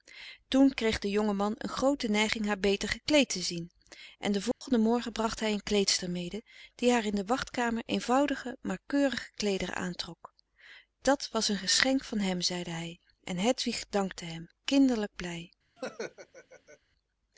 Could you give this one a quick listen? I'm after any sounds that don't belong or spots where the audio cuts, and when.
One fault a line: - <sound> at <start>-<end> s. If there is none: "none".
- dropout at 4.5-4.6 s
- laugh at 15.8-16.8 s